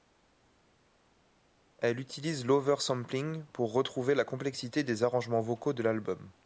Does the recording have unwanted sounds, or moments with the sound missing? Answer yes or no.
no